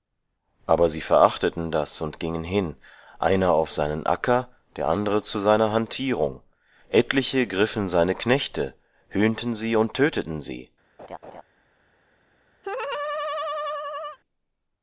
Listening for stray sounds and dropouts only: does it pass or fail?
fail